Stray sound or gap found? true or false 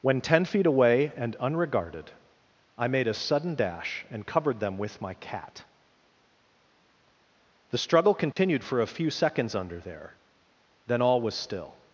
true